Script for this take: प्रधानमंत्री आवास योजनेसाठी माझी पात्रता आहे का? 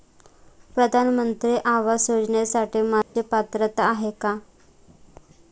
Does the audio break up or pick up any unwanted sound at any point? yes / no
yes